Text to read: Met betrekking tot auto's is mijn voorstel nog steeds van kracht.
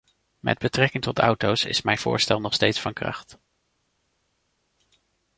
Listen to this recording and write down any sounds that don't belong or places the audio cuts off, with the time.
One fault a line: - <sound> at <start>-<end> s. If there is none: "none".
none